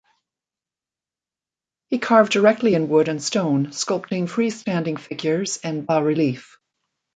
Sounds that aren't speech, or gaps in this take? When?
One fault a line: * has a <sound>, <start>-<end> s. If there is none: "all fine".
all fine